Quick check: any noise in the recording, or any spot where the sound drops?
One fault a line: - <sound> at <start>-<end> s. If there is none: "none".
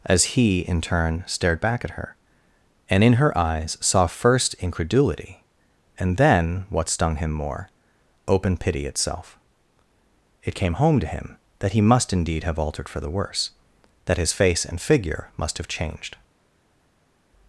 none